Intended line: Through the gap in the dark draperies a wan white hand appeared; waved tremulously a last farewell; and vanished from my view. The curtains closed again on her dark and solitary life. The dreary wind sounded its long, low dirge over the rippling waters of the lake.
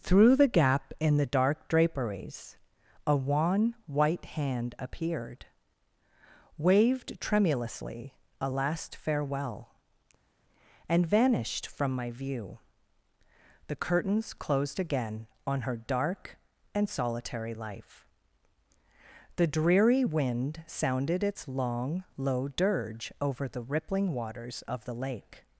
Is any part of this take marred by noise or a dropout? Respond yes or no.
no